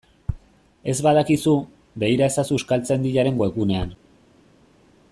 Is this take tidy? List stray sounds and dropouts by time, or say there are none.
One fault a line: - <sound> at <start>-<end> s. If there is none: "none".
none